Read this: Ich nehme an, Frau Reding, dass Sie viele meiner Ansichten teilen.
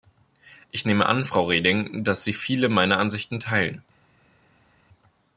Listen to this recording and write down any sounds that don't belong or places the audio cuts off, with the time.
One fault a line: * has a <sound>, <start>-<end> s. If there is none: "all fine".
all fine